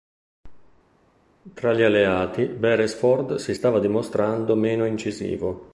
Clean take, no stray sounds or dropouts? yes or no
yes